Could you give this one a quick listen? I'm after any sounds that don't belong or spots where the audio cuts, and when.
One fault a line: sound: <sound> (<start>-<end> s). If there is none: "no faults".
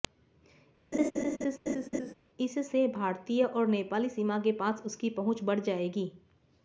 sound: laugh (0.9-2.1 s)